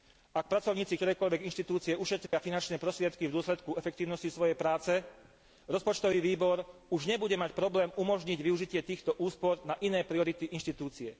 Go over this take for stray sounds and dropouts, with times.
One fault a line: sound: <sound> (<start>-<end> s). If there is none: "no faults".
sound: dropout (2.3-2.3 s)